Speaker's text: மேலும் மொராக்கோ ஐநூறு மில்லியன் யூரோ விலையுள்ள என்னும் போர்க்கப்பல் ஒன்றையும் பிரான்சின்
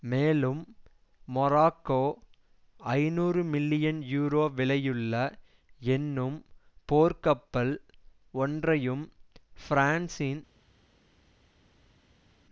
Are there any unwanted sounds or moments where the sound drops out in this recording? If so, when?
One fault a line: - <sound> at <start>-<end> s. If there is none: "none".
none